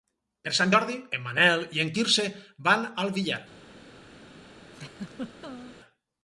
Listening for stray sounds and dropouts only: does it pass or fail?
fail